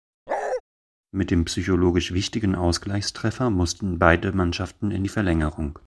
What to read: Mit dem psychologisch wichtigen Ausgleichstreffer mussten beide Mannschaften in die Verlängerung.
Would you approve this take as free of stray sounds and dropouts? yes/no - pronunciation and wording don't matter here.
no